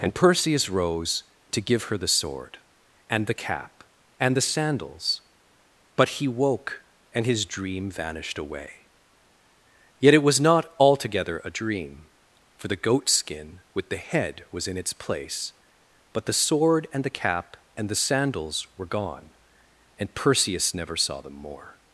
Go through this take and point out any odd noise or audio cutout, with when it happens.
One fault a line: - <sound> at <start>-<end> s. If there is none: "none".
none